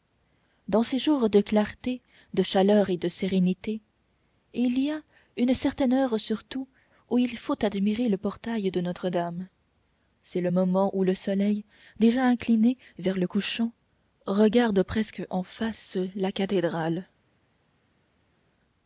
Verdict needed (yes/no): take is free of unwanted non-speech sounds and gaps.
yes